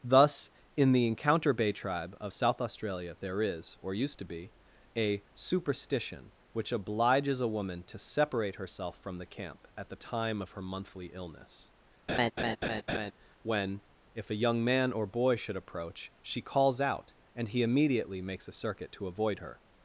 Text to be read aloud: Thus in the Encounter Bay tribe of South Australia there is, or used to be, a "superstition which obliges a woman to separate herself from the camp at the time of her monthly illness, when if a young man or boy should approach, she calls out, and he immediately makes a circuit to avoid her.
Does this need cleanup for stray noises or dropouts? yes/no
yes